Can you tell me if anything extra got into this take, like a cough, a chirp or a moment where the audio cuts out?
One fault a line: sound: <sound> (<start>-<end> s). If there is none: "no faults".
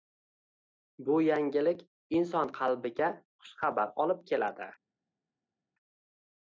no faults